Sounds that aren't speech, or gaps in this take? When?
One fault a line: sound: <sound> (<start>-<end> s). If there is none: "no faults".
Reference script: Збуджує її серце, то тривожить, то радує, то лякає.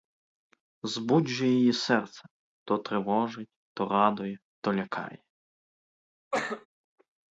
sound: cough (6.3-6.7 s)